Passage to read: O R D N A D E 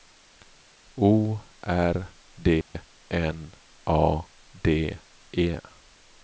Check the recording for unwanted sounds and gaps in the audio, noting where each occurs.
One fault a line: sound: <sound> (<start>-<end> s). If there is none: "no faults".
sound: dropout (2.6-2.7 s)